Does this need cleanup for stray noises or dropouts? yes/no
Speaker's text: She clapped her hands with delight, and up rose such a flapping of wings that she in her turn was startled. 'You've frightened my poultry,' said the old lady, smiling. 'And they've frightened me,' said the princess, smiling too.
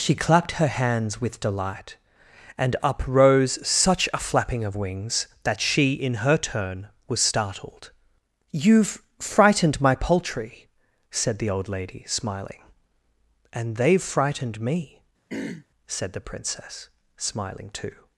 yes